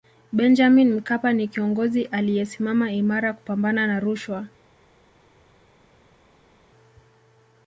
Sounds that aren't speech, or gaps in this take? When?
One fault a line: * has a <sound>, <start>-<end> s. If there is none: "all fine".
all fine